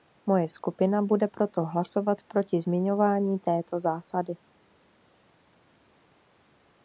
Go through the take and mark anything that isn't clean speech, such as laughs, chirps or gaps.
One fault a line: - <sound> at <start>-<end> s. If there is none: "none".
none